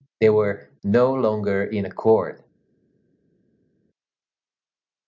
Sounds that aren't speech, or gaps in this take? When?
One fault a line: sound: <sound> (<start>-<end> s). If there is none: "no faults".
no faults